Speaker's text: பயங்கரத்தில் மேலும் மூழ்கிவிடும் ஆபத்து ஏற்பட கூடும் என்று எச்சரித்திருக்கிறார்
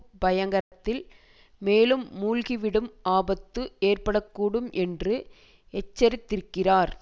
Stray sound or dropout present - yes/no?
yes